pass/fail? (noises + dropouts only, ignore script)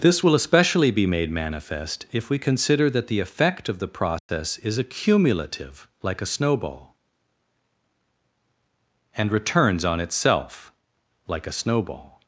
fail